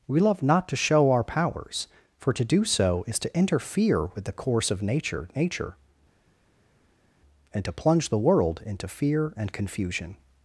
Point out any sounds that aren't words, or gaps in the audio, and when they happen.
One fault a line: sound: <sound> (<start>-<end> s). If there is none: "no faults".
no faults